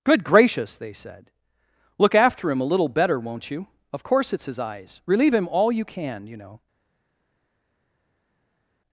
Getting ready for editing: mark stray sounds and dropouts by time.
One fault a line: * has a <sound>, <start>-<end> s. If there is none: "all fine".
all fine